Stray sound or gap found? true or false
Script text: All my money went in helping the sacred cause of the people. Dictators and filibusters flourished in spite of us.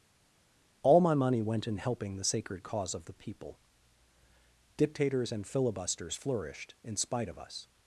false